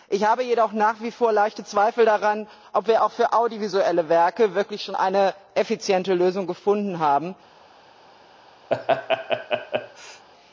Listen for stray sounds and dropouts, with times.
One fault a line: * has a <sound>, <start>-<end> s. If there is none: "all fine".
* has a laugh, 8.7-10.2 s